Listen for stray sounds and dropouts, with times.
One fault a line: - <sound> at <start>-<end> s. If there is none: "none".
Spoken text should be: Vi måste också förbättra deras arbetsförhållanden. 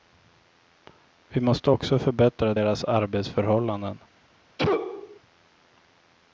- sneeze at 4.6-5.2 s